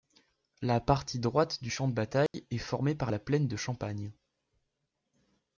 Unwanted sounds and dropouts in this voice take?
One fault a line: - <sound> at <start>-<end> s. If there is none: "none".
- dropout at 2.3-2.3 s